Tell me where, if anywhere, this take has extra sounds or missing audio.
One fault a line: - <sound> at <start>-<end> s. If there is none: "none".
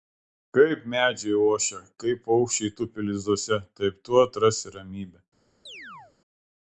- chirp at 5.7-6.1 s